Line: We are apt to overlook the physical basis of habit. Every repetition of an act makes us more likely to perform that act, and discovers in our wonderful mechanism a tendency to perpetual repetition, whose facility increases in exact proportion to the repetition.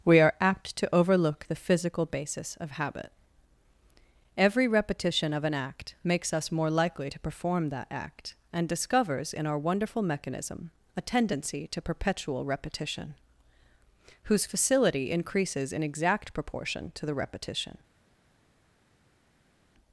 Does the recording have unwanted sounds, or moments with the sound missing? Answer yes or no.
no